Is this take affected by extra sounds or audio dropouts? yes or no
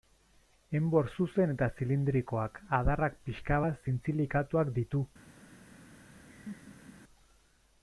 yes